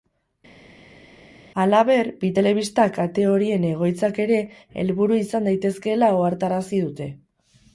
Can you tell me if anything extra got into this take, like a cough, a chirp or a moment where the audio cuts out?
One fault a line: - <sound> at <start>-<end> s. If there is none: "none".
none